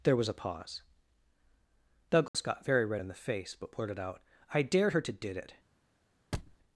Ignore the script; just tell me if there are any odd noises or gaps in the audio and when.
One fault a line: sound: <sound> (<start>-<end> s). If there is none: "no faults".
sound: dropout (2.3-2.3 s)
sound: thud (6.3-6.6 s)